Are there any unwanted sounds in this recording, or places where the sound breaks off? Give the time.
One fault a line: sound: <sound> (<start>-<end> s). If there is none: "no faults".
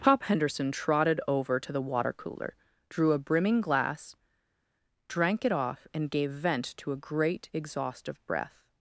no faults